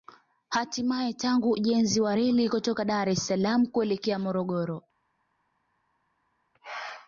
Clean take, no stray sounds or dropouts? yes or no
yes